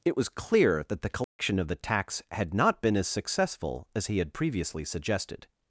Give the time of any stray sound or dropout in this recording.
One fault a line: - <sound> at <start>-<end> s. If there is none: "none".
- dropout at 1.2-1.4 s